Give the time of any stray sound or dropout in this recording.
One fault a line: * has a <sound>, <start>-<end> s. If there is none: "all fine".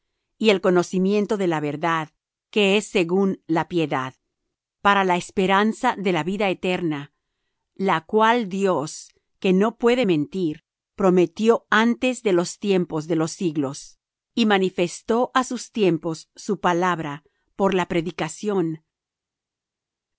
all fine